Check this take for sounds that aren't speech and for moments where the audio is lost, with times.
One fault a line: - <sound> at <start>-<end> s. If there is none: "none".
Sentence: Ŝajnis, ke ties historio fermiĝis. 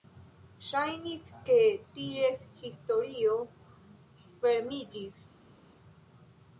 none